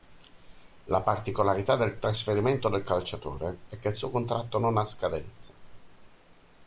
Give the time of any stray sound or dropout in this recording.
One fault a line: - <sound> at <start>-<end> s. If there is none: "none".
none